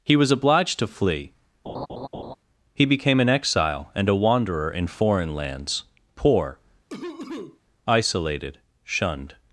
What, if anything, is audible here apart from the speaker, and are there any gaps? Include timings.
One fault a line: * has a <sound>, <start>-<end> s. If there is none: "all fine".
* has a laugh, 1.7-2.4 s
* has a cough, 6.9-7.6 s